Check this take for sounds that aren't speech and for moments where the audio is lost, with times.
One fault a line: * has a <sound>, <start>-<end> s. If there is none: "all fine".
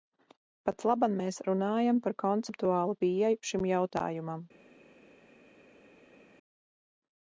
all fine